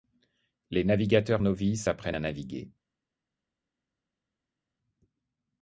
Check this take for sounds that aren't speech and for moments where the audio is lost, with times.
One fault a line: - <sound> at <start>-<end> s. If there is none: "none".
none